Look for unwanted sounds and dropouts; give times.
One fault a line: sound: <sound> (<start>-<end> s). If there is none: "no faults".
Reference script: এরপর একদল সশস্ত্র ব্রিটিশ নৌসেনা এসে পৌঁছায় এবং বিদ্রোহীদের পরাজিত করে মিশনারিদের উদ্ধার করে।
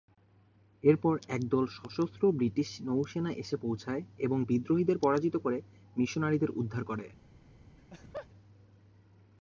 sound: laugh (7.8-8.3 s)